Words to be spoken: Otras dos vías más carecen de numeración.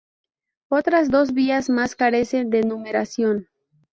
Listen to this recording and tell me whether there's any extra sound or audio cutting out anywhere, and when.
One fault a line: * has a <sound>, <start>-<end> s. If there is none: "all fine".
all fine